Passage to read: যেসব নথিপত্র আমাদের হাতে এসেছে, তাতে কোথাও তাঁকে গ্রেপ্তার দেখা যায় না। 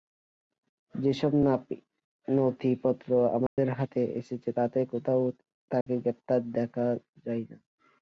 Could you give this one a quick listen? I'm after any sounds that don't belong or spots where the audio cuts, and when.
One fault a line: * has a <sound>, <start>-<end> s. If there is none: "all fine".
* has a dropout, 3.5-3.6 s
* has a dropout, 5.8-5.9 s